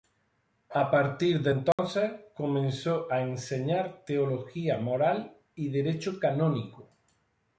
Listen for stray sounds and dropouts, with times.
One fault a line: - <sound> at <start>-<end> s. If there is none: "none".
- dropout at 1.7-1.8 s